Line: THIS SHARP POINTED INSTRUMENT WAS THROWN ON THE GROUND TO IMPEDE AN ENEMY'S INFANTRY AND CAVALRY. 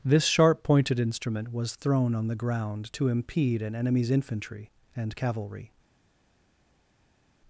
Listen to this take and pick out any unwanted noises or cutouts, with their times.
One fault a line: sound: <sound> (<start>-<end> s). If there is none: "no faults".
no faults